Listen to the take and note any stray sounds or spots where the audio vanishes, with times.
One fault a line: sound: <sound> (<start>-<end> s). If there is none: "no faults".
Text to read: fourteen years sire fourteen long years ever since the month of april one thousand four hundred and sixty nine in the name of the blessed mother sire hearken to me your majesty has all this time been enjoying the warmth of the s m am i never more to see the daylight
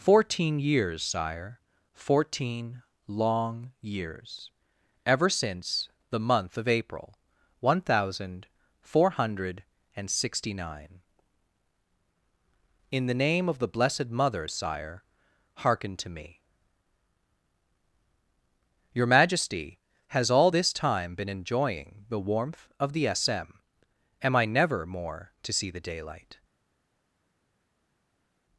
no faults